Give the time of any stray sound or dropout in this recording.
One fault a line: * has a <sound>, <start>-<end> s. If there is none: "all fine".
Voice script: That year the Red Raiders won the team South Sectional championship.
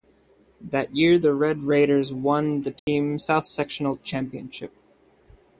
* has a dropout, 2.8-2.9 s